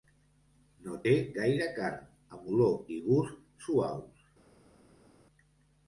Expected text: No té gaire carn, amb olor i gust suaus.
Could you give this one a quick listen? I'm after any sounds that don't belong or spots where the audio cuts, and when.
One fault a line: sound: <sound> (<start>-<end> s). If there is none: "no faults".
no faults